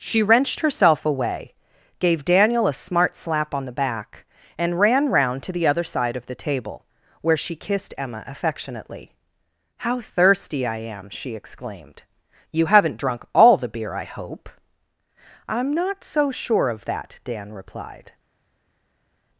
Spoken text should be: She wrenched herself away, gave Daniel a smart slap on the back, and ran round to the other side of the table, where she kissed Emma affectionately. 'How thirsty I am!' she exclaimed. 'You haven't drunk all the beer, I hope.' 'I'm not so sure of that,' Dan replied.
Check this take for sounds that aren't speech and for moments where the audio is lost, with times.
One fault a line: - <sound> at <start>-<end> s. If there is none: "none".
none